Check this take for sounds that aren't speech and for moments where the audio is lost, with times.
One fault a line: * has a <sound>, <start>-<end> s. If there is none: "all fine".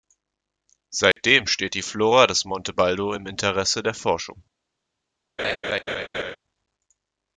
* has a dropout, 1.1-1.2 s
* has a laugh, 5.4-6.4 s